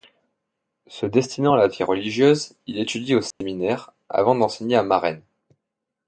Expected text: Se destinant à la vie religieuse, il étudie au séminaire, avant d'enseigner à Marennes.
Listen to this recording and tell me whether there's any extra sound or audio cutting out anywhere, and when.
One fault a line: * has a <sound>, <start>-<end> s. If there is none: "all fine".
* has a dropout, 3.3-3.4 s